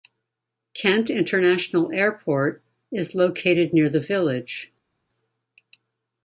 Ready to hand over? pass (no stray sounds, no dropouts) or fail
pass